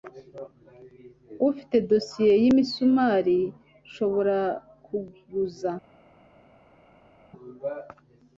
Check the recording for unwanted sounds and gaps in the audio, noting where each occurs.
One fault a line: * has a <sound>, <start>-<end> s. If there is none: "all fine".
all fine